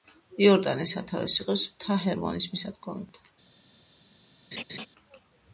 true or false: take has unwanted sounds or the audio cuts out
true